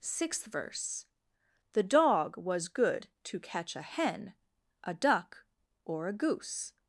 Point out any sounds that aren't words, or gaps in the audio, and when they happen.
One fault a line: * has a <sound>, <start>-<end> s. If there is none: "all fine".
all fine